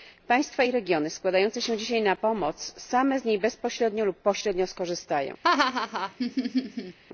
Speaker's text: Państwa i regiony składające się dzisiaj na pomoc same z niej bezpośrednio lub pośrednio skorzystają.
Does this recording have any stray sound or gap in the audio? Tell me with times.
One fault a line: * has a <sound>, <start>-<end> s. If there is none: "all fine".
* has a laugh, 5.4-7.0 s